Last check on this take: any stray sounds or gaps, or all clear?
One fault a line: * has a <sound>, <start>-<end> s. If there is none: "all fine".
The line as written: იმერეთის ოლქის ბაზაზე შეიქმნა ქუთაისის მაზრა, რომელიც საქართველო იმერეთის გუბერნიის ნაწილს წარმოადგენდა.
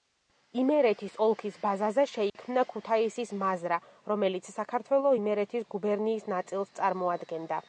* has a dropout, 2.3-2.4 s